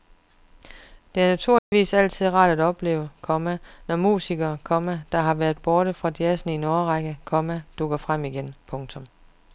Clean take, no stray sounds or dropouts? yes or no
no